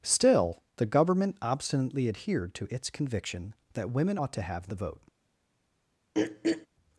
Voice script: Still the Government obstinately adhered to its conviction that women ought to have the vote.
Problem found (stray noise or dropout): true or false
true